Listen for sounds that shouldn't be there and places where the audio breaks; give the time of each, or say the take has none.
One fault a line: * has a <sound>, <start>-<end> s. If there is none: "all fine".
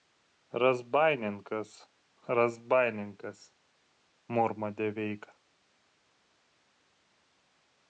all fine